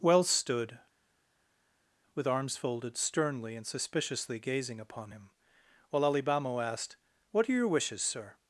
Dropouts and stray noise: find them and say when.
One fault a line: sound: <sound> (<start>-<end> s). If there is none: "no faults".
no faults